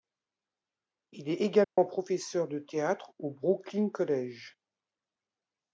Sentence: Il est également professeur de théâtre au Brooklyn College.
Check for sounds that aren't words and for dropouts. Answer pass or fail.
fail